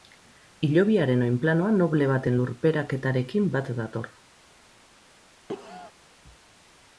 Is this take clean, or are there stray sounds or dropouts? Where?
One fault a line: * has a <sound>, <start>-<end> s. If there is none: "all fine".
* has a cough, 5.5-5.9 s